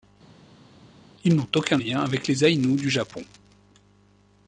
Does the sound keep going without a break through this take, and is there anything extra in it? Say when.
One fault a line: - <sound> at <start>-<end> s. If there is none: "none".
none